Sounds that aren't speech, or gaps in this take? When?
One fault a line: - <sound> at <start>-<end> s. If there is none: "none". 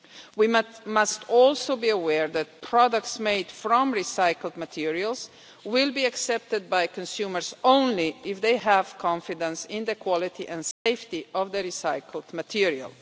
- dropout at 10.7-10.9 s